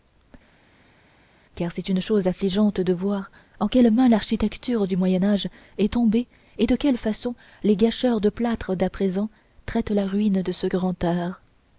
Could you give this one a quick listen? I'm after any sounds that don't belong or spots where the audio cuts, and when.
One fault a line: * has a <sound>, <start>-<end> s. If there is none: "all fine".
all fine